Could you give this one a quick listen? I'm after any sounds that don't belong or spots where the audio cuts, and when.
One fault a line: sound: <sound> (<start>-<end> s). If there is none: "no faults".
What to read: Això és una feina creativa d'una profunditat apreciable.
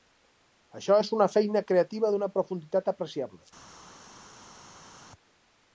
no faults